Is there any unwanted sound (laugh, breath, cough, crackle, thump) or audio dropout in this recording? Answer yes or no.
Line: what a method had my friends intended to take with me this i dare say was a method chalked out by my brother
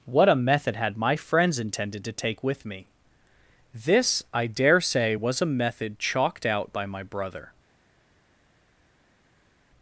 no